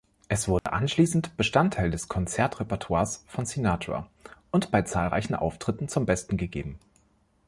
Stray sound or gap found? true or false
true